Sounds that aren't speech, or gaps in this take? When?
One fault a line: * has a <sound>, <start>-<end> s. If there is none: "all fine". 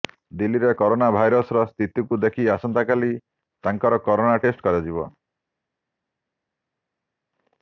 all fine